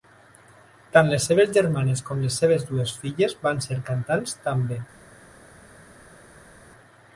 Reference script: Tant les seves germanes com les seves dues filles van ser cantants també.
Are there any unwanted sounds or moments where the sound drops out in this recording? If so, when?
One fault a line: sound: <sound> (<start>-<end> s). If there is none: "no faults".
no faults